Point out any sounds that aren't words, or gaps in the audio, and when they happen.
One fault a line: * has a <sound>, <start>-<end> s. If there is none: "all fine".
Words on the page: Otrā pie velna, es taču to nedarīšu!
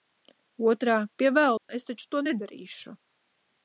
* has a dropout, 1.6-1.7 s